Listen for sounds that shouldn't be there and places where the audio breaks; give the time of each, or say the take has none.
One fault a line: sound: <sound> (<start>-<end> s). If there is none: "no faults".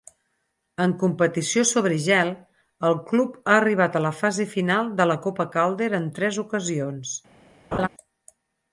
sound: laugh (7.7-7.9 s)